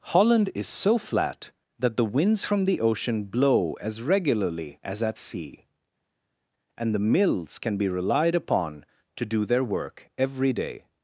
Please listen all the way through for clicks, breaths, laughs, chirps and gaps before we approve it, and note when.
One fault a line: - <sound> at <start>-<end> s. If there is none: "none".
none